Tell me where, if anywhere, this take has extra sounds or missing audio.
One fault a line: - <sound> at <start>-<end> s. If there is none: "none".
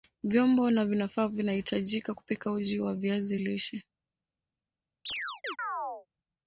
- chirp at 5.1-6.1 s